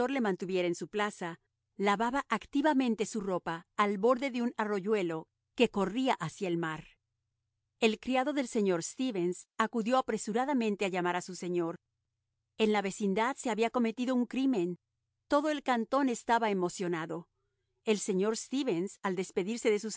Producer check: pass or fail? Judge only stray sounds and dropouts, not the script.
pass